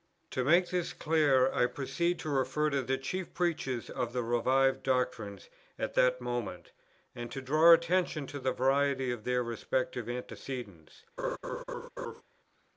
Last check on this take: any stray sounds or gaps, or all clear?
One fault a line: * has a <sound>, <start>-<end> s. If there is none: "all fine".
* has a laugh, 11.2-12.2 s